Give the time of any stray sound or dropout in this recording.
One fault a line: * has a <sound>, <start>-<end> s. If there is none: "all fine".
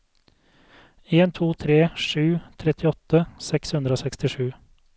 all fine